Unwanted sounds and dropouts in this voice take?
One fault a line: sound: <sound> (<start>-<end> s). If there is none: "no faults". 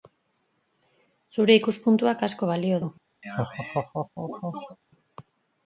sound: laugh (3.2-4.8 s)